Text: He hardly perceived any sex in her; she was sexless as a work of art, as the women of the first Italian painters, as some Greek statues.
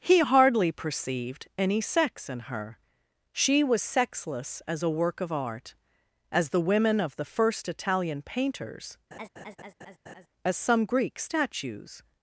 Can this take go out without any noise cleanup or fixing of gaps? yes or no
no